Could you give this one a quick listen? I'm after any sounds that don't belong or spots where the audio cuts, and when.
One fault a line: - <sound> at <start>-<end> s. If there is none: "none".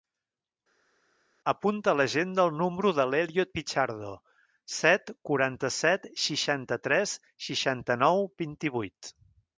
none